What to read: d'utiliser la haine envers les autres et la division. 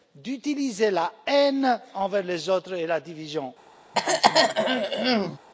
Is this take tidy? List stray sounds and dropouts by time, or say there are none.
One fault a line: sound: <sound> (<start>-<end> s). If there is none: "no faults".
sound: throat clearing (3.9-5.4 s)